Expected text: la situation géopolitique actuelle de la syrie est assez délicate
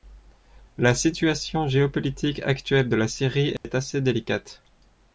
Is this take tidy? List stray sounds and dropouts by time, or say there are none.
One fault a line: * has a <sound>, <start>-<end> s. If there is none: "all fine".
* has a dropout, 3.6-3.6 s